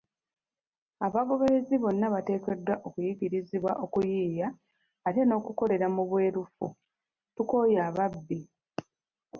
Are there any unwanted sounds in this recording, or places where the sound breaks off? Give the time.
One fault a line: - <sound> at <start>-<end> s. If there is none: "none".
none